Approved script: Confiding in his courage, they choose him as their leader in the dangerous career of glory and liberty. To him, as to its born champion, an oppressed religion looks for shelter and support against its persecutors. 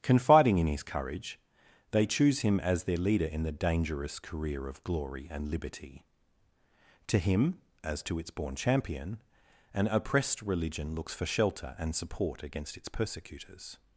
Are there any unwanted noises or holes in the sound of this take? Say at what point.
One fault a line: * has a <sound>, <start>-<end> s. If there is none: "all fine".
all fine